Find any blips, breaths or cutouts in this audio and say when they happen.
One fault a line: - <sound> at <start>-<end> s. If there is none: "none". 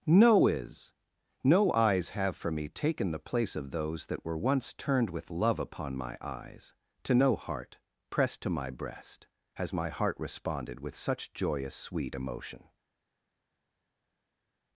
none